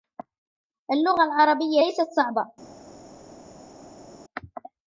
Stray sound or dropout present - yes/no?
no